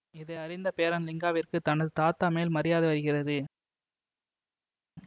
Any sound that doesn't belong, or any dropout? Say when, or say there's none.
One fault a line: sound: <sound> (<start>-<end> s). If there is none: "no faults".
no faults